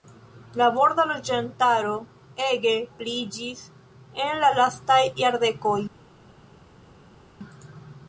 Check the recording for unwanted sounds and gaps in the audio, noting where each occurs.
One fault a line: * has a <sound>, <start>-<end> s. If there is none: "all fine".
all fine